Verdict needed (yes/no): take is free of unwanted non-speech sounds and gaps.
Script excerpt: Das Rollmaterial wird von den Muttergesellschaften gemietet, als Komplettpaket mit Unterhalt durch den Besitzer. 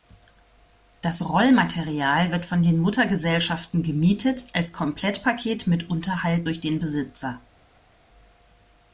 yes